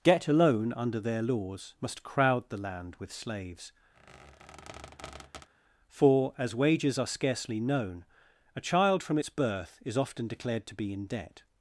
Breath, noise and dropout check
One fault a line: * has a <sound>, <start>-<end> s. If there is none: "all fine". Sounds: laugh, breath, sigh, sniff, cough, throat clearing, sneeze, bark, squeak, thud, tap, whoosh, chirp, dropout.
* has a squeak, 3.9-5.5 s